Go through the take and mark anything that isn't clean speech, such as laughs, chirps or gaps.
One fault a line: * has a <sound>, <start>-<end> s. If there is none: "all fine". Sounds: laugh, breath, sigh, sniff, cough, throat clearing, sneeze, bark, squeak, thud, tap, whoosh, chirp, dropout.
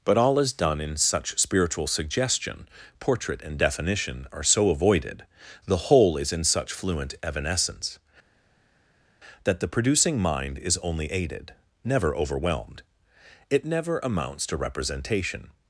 all fine